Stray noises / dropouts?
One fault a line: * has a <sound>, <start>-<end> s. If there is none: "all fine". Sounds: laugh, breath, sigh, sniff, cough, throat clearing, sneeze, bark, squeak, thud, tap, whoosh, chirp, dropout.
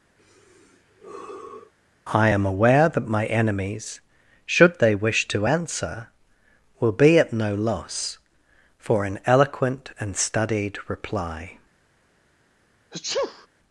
* has a sigh, 0.2-1.7 s
* has a sneeze, 12.9-13.5 s